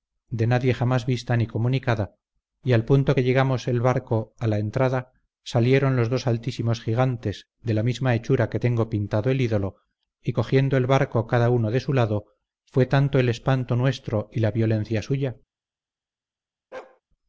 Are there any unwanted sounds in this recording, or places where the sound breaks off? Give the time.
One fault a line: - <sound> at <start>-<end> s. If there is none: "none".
- bark at 16.7-17.0 s